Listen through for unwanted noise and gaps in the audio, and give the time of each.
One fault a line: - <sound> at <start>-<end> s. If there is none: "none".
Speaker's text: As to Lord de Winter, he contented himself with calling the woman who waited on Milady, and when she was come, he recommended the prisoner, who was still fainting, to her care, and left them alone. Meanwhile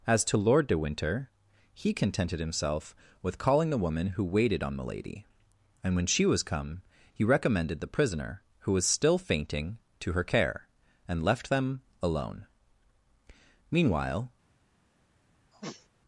- sniff at 15.5-15.9 s